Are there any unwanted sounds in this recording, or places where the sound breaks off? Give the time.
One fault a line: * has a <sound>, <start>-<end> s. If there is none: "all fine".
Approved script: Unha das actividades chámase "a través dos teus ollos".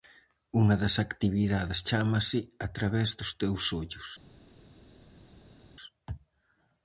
all fine